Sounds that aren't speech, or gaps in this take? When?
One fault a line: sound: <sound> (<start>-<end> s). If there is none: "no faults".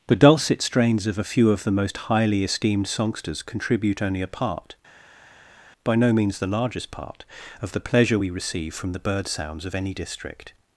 no faults